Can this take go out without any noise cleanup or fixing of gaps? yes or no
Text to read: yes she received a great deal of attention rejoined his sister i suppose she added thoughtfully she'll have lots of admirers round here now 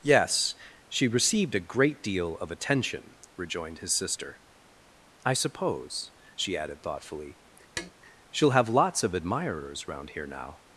no